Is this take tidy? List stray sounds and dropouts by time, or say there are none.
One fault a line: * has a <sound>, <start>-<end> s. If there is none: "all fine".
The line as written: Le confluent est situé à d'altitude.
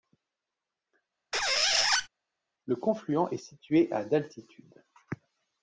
* has a squeak, 1.3-2.1 s